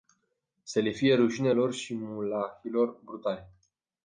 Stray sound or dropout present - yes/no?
no